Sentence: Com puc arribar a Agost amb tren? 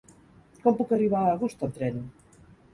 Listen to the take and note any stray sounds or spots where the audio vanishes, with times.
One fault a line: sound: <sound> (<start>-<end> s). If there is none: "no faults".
no faults